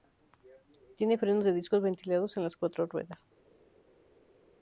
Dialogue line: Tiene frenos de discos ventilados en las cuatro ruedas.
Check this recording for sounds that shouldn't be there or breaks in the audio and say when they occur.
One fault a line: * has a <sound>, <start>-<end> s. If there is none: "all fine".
all fine